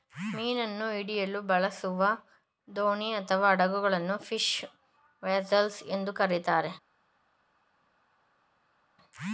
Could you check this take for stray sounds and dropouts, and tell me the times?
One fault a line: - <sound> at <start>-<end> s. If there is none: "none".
none